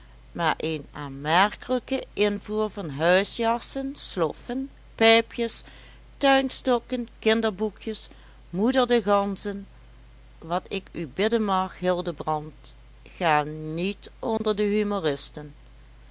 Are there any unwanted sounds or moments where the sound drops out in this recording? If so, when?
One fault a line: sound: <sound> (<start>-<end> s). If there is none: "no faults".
sound: dropout (14.4-14.4 s)